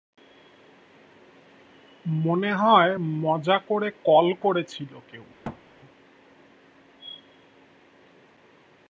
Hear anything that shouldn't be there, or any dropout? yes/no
yes